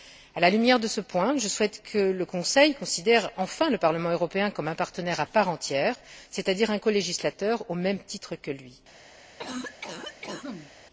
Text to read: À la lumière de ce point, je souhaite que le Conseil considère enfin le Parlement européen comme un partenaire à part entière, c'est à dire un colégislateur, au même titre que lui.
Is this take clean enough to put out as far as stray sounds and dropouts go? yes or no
no